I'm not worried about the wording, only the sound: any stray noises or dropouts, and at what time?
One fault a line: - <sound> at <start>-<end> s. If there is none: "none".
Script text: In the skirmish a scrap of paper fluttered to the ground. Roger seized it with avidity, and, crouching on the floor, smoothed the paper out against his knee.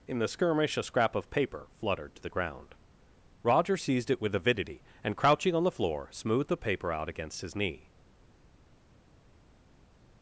none